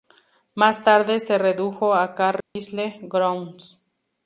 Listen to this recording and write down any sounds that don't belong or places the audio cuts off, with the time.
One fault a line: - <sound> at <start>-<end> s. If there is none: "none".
- dropout at 2.4-2.6 s